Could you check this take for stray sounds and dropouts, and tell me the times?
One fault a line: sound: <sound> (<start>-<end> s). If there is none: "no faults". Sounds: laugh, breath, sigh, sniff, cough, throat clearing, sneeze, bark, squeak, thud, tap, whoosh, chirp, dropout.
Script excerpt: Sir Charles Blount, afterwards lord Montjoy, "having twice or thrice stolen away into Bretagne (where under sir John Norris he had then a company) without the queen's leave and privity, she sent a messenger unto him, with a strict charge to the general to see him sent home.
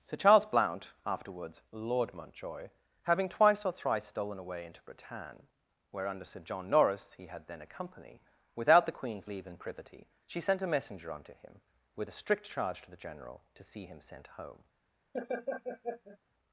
sound: laugh (15.1-16.2 s)